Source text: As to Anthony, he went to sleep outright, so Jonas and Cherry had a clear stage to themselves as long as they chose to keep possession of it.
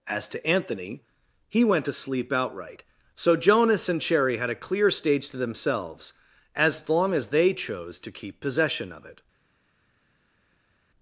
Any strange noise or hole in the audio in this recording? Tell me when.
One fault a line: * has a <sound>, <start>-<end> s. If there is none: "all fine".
all fine